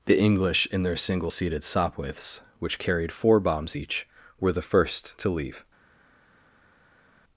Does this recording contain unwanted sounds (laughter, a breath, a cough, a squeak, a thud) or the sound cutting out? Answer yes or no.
no